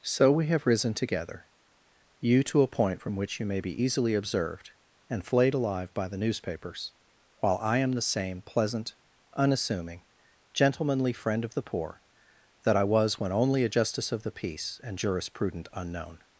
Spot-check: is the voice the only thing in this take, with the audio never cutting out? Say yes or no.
yes